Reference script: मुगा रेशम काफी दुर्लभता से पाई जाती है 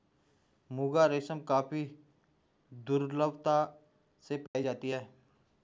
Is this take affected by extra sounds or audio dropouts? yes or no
yes